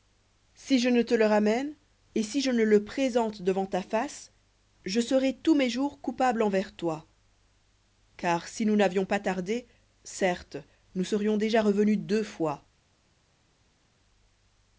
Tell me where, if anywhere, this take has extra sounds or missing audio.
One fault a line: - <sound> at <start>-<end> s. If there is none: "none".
none